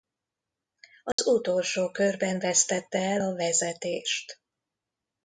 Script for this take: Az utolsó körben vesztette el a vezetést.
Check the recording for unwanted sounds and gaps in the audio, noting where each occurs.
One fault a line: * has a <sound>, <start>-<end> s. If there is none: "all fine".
* has a dropout, 1.1-1.2 s